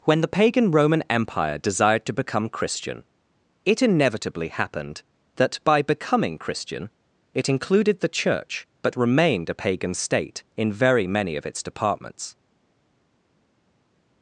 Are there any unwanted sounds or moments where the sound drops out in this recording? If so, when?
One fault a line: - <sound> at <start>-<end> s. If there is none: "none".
none